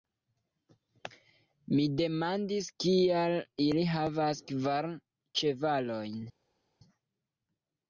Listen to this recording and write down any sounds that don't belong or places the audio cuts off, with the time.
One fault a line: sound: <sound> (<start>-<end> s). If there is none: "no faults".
no faults